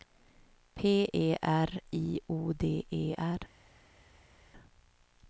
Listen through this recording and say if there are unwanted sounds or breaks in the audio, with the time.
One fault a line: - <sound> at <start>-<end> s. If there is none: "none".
none